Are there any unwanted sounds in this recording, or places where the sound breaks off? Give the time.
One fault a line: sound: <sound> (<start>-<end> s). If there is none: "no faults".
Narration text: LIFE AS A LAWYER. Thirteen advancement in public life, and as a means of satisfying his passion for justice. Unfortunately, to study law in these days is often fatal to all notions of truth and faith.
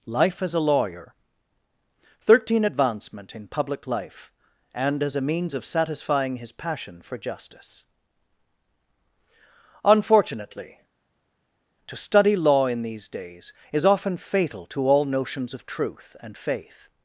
no faults